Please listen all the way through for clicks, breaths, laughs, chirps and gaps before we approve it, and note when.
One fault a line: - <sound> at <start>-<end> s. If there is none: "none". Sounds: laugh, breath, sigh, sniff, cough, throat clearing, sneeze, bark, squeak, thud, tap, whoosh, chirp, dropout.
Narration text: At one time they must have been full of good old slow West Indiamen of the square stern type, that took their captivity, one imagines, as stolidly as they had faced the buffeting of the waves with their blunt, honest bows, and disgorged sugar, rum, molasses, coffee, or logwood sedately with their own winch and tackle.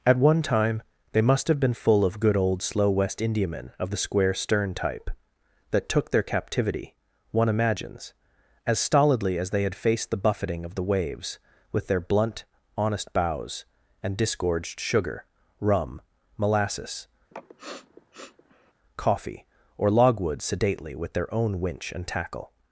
- sniff at 17.3-18.7 s